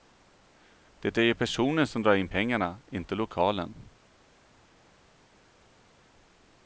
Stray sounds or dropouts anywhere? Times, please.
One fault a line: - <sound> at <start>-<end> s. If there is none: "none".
none